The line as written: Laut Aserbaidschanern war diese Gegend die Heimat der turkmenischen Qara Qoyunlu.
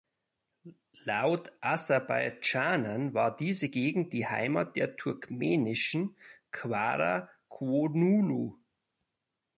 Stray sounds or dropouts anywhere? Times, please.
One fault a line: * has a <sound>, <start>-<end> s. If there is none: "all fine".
all fine